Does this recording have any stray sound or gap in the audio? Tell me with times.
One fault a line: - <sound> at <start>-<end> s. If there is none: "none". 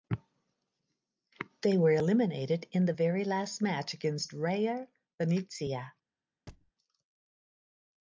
- thud at 6.5-6.7 s